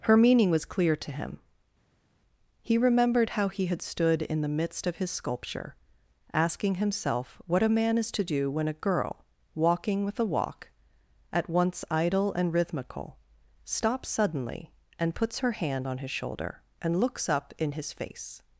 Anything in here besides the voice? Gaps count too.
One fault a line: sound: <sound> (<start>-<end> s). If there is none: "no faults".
no faults